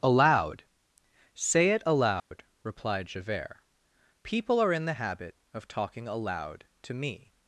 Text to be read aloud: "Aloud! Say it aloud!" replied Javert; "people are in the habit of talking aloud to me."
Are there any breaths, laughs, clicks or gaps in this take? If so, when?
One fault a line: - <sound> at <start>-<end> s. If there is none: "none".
- dropout at 2.2-2.3 s